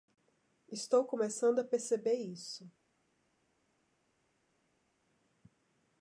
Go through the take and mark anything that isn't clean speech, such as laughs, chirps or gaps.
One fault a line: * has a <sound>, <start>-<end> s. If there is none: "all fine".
all fine